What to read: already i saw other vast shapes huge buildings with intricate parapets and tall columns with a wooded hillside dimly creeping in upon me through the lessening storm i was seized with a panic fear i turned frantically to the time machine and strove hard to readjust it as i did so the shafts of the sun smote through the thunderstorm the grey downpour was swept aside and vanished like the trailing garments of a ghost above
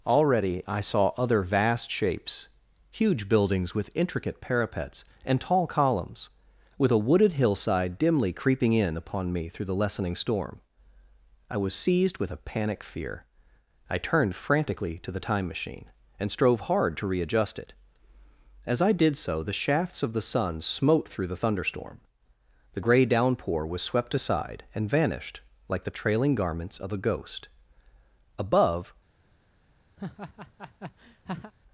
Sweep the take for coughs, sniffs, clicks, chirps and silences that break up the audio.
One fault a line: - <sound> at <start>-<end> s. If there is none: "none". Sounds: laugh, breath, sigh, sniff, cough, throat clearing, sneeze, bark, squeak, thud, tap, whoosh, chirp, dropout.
- laugh at 30.0-31.5 s